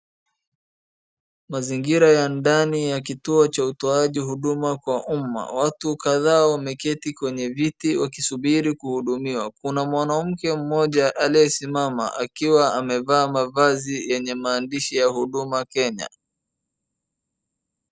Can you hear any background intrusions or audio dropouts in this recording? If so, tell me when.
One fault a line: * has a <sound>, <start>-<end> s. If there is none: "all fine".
all fine